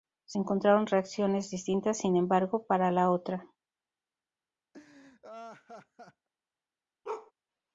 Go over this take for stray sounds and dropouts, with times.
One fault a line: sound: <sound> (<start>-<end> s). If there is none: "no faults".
sound: laugh (4.7-6.3 s)
sound: bark (7.0-7.3 s)